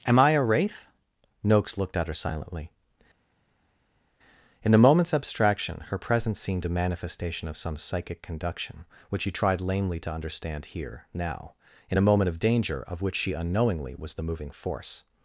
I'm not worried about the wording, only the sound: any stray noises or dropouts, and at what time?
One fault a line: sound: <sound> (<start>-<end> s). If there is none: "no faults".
no faults